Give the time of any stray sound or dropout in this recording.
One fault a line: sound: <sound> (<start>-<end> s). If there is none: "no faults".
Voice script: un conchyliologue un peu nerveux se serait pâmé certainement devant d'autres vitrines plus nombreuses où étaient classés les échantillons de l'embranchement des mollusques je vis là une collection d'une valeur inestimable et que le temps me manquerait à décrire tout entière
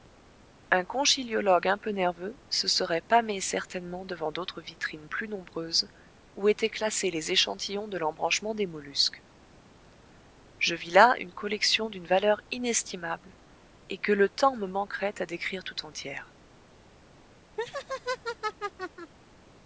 sound: laugh (17.6-19.1 s)